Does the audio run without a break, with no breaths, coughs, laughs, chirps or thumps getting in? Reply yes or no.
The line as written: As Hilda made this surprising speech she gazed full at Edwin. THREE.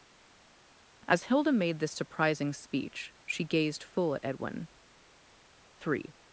yes